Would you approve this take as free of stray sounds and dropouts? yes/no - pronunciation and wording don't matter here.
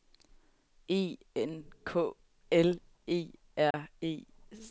no